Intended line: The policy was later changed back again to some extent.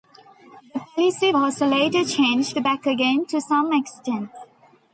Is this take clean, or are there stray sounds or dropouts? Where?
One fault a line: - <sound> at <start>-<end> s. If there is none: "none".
none